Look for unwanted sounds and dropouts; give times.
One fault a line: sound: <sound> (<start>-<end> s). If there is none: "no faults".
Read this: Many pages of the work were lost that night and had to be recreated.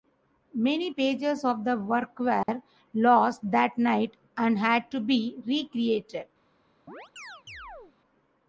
sound: dropout (2.4-2.5 s)
sound: chirp (6.9-8.0 s)